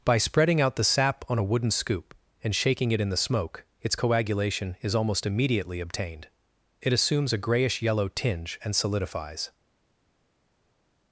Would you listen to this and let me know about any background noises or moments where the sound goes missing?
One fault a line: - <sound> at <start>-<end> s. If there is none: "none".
none